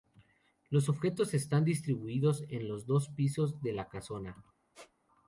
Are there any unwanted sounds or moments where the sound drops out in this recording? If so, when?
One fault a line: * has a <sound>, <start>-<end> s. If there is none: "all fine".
* has a squeak, 4.7-4.9 s